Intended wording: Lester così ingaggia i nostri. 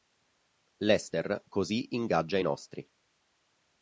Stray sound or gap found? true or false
false